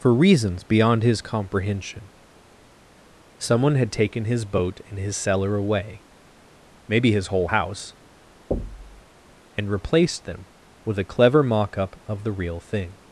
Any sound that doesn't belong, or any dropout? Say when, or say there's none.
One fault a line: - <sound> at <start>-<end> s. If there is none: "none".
- thud at 8.5-9.0 s